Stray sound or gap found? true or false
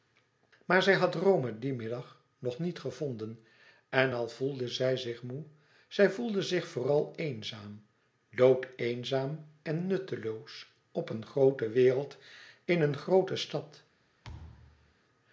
true